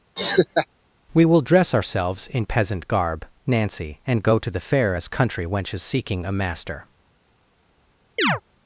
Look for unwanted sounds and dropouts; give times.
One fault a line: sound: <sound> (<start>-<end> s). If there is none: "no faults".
sound: laugh (0.2-0.7 s)
sound: chirp (8.2-8.4 s)